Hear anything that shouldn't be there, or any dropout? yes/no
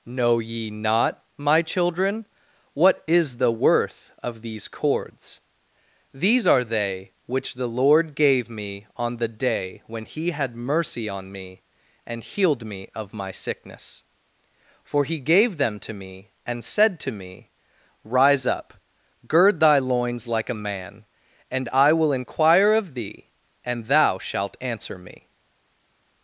no